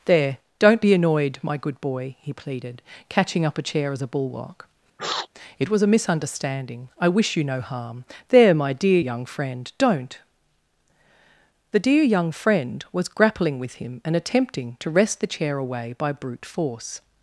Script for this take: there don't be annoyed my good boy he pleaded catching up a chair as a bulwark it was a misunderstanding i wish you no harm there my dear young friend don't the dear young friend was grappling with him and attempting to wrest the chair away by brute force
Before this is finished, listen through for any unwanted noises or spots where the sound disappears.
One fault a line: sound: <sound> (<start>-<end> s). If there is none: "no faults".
sound: sniff (5.0-5.3 s)